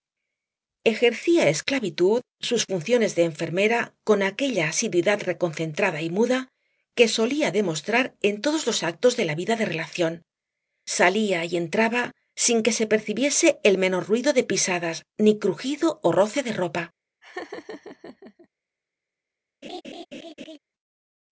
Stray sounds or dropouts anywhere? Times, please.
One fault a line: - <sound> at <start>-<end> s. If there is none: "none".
- laugh at 17.2-18.5 s
- laugh at 19.6-20.6 s